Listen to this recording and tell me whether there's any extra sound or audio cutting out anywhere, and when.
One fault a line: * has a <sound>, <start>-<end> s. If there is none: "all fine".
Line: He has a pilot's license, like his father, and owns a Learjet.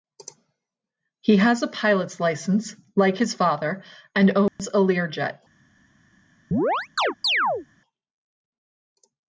* has a dropout, 4.5-4.6 s
* has a chirp, 6.5-7.7 s